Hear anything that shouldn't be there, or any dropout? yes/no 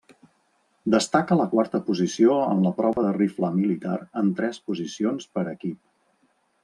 yes